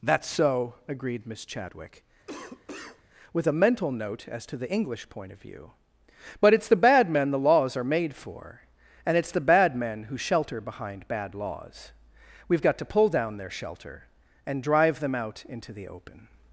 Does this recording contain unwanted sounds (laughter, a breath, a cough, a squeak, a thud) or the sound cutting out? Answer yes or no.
yes